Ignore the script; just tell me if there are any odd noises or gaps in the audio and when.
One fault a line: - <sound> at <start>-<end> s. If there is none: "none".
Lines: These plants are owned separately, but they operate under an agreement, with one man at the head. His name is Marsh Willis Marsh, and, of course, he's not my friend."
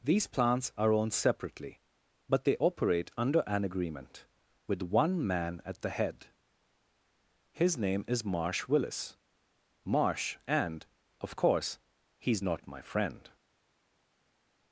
none